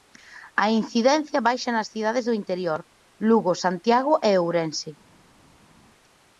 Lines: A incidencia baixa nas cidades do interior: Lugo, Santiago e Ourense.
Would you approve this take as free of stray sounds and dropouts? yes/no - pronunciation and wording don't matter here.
yes